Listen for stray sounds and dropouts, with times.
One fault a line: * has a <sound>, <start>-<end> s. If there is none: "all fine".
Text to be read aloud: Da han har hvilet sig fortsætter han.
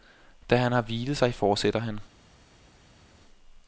all fine